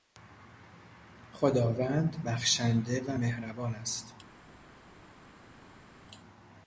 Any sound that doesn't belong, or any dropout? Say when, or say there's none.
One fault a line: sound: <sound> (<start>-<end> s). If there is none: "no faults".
no faults